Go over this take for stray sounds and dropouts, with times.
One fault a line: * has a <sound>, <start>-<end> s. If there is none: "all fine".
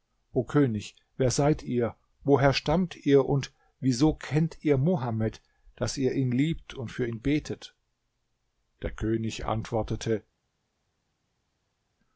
all fine